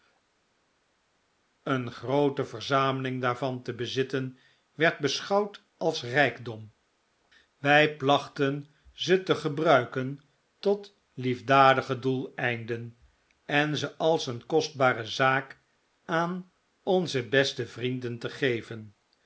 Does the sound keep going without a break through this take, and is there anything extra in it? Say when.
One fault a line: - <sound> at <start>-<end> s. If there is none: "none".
none